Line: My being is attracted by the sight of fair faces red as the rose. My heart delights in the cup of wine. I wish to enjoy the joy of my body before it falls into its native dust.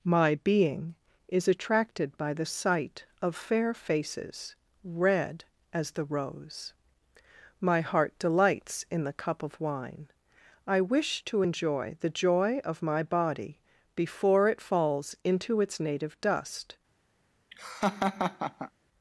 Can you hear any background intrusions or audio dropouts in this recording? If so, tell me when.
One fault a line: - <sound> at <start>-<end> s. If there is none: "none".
- laugh at 17.5-18.7 s